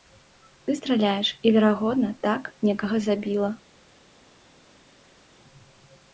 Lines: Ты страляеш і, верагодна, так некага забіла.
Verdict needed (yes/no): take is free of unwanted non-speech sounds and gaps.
yes